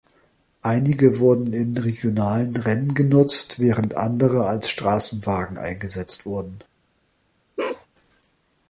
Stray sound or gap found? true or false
true